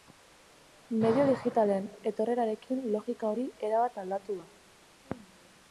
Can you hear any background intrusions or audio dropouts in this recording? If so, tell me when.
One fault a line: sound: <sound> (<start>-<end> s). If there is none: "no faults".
no faults